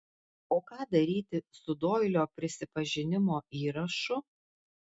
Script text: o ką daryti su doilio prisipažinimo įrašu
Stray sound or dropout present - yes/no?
no